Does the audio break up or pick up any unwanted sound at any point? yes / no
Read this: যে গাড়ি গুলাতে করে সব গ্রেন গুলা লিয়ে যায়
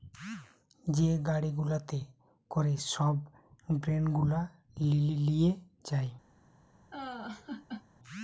yes